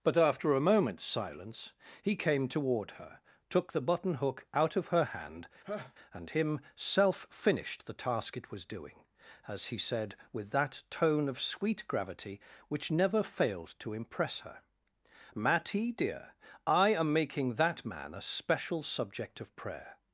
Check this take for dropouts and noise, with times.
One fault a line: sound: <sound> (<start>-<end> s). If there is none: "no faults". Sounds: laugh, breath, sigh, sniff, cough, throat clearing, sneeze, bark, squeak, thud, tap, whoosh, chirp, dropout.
sound: laugh (5.6-5.9 s)